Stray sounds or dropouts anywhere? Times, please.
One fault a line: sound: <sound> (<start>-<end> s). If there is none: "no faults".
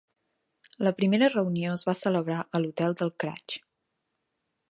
no faults